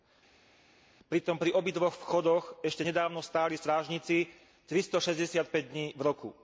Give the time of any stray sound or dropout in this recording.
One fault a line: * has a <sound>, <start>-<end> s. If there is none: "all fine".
all fine